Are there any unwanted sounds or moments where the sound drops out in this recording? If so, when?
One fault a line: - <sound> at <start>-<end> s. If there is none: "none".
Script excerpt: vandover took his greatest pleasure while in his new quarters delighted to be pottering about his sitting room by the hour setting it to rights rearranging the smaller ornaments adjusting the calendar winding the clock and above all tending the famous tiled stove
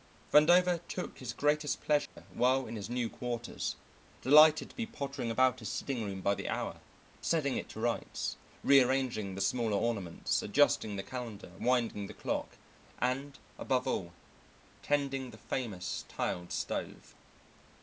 - dropout at 2.1-2.2 s